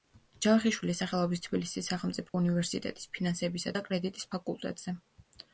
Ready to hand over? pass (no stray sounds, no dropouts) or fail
fail